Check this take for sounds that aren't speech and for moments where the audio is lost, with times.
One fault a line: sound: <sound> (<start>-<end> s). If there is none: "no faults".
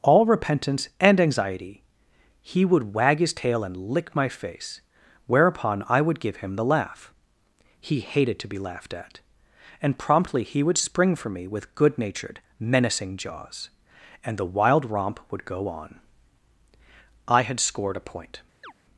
sound: chirp (18.6-18.7 s)